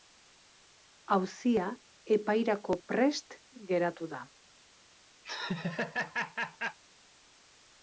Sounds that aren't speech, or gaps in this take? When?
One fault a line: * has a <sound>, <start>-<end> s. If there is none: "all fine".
* has a laugh, 5.2-6.8 s